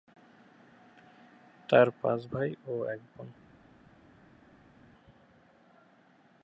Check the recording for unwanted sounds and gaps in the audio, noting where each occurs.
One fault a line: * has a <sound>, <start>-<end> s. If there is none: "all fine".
all fine